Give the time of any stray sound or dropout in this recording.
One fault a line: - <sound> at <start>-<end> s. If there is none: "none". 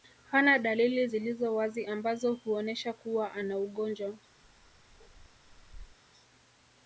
- bark at 4.4-6.0 s